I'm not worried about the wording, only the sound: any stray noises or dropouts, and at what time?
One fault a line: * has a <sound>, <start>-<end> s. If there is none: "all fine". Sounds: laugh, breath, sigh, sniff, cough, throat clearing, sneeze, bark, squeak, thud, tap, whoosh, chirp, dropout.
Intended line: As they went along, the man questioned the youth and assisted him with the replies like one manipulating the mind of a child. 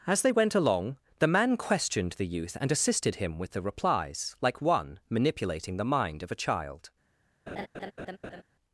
* has a laugh, 7.5-8.4 s